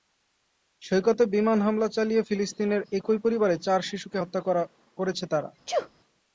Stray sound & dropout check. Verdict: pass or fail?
fail